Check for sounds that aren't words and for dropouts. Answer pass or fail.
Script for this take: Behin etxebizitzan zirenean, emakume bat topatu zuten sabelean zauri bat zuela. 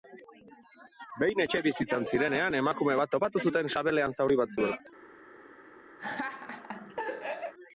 fail